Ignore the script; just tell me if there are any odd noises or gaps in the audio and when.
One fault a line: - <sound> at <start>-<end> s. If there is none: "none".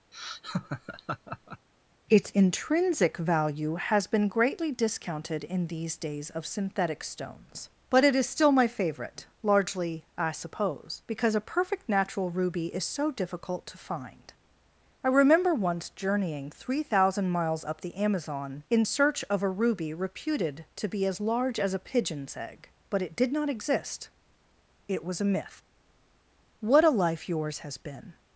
- laugh at 0.1-1.7 s